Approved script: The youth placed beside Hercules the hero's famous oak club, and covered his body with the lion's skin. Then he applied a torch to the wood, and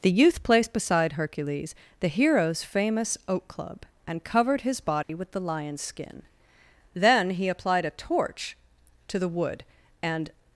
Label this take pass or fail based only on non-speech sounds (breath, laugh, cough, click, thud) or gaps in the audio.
fail